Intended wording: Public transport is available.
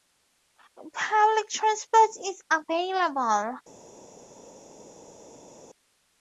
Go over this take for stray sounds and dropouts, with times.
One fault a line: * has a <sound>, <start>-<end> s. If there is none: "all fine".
all fine